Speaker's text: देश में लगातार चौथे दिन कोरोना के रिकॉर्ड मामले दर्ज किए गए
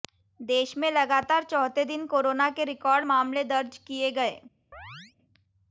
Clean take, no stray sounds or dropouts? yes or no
no